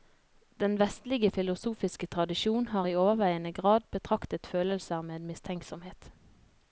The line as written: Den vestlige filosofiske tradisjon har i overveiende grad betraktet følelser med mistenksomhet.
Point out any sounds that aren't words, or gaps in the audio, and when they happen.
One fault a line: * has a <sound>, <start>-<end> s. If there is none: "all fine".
all fine